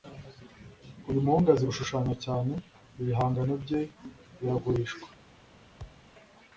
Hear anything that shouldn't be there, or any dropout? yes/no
yes